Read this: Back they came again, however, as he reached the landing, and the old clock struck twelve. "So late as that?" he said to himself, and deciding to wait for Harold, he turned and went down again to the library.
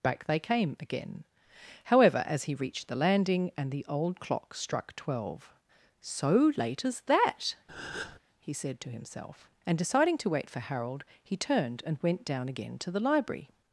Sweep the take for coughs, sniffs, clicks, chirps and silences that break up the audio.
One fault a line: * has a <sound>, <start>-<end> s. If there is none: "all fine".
* has a breath, 7.7-8.2 s